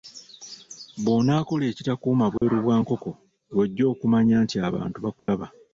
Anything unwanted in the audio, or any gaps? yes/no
yes